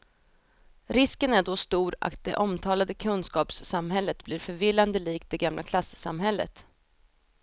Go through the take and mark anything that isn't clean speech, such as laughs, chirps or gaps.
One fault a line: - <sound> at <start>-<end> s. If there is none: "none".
none